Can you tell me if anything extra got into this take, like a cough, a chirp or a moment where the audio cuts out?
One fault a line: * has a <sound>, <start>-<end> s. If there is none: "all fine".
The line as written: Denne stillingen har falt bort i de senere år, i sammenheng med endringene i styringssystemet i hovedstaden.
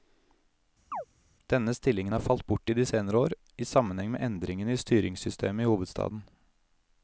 * has a chirp, 0.9-1.1 s